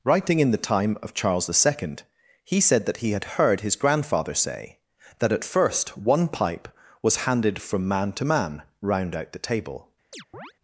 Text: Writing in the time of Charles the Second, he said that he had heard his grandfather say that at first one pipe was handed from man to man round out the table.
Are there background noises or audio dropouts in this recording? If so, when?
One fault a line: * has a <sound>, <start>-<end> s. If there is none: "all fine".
* has a chirp, 10.1-10.5 s